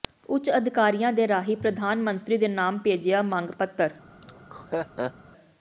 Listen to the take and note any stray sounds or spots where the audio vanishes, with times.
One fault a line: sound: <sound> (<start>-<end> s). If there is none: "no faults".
sound: laugh (4.2-5.1 s)